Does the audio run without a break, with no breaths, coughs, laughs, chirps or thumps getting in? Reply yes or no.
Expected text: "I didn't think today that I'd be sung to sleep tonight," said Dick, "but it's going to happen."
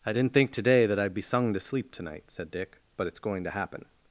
yes